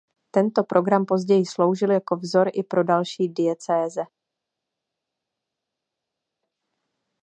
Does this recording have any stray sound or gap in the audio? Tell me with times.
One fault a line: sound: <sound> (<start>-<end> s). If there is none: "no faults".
no faults